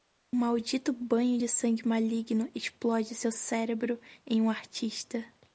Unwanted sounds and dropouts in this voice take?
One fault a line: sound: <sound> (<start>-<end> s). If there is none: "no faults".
no faults